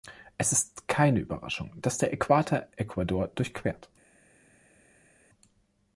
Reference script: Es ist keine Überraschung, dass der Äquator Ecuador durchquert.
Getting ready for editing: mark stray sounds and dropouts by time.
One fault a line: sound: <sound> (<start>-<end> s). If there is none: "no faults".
no faults